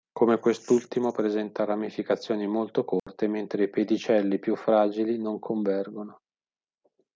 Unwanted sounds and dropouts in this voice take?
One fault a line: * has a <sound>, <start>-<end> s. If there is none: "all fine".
* has a dropout, 3.0-3.1 s